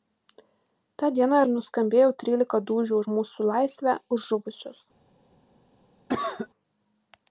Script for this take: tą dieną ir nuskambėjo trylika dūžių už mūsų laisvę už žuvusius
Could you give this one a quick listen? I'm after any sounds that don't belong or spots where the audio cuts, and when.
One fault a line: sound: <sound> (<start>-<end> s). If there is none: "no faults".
sound: cough (6.1-6.5 s)